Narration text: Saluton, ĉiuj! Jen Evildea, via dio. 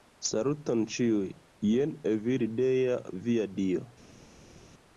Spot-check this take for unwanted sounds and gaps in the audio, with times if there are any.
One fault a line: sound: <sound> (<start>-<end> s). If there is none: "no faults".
no faults